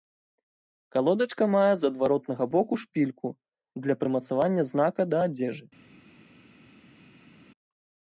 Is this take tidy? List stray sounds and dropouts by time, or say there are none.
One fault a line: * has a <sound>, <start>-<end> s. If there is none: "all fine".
all fine